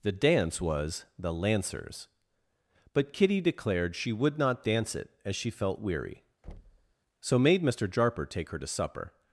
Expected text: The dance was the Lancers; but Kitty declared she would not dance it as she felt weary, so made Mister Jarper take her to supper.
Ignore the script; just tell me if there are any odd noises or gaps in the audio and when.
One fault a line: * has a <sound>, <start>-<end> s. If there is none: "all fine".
* has a thud, 6.4-6.9 s